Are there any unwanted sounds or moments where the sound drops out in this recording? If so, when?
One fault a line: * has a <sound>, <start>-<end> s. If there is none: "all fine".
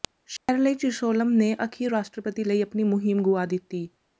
* has a dropout, 0.4-0.5 s